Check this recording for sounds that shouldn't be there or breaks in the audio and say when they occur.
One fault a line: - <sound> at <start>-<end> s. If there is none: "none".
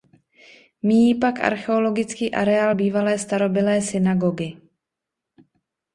none